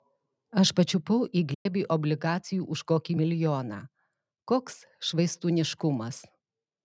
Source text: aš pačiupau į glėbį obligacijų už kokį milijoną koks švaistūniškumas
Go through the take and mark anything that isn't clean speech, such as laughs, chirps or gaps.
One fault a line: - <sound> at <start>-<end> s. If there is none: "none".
- dropout at 1.5-1.7 s